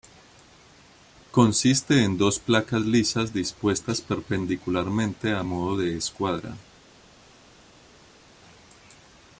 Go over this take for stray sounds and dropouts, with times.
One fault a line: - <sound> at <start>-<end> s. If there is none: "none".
none